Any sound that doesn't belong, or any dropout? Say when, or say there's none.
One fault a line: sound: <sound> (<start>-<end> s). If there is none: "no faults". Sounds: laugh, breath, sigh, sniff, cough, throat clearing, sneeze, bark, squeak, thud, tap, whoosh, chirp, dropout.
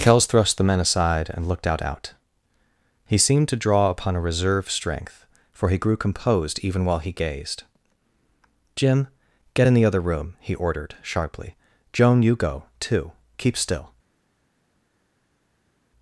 no faults